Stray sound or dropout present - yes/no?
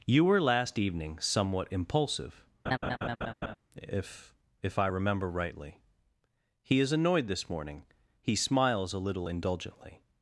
yes